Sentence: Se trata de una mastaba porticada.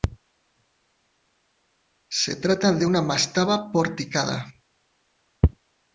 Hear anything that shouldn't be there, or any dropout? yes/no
no